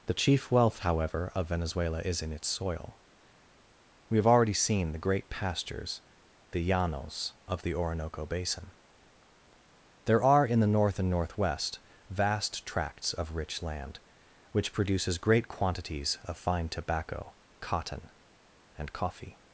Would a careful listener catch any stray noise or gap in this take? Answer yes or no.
no